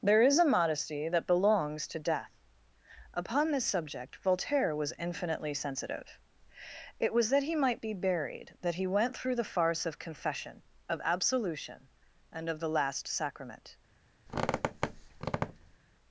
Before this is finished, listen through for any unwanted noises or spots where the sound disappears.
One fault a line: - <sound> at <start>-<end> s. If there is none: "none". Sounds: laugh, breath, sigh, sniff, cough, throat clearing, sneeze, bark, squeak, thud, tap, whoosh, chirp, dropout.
- squeak at 14.3-15.8 s